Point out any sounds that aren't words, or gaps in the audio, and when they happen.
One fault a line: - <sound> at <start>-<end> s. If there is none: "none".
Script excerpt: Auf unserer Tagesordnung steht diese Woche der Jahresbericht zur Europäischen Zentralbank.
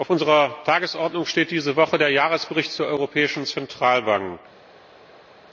none